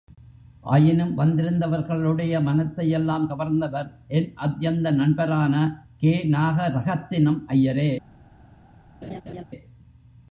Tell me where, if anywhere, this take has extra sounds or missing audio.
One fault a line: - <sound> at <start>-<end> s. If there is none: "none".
- laugh at 9.0-9.4 s